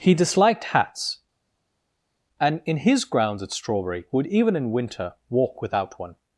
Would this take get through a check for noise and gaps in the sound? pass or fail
pass